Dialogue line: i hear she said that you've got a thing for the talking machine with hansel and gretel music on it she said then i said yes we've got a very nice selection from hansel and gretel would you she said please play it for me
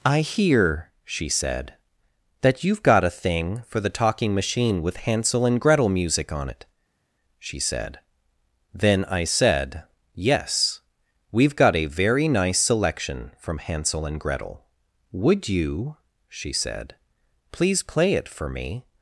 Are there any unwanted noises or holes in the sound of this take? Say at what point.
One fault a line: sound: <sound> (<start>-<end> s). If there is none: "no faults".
no faults